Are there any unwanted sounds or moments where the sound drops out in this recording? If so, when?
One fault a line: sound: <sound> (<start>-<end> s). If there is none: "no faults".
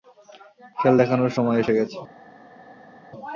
no faults